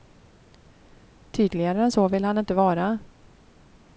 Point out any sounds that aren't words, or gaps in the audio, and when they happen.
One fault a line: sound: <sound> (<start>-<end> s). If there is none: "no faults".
no faults